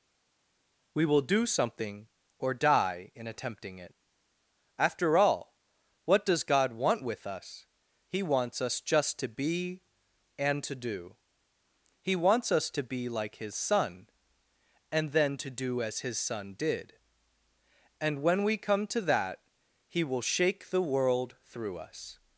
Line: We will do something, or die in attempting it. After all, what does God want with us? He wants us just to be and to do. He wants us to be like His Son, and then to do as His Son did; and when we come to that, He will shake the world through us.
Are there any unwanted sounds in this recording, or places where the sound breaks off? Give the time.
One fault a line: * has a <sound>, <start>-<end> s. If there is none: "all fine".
all fine